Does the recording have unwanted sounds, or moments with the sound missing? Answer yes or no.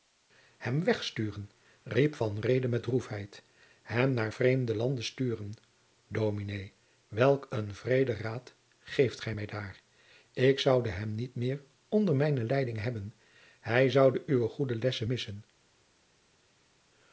no